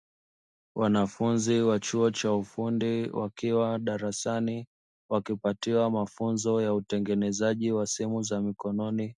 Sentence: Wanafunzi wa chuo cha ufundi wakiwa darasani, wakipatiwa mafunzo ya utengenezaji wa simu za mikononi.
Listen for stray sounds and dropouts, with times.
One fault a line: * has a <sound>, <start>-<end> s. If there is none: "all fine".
all fine